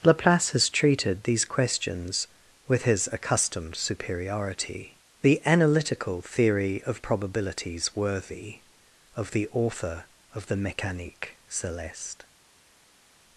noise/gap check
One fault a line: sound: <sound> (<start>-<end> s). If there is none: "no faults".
no faults